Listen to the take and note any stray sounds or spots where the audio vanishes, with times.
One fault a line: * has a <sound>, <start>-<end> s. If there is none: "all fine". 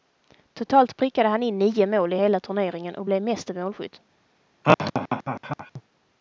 * has a laugh, 4.6-5.8 s